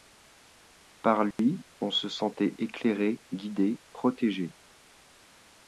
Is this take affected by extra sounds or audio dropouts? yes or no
yes